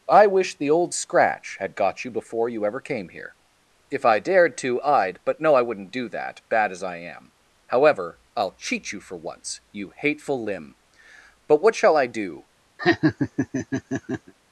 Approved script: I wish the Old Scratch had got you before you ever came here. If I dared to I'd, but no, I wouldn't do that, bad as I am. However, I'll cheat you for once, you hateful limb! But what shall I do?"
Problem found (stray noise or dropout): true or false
true